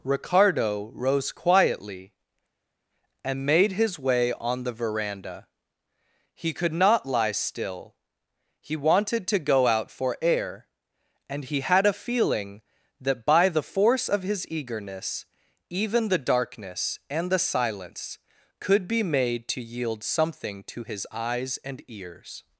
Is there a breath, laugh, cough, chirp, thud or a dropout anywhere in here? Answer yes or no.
no